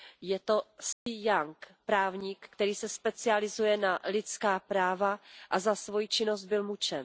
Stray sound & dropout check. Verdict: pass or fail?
fail